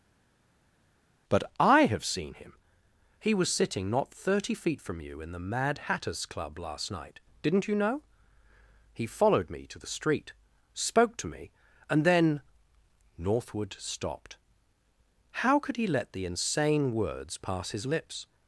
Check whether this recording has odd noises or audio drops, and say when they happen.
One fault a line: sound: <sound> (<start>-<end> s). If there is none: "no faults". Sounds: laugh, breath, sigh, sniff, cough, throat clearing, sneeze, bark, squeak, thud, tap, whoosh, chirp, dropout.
no faults